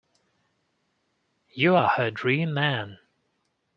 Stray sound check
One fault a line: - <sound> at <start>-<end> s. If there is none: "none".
none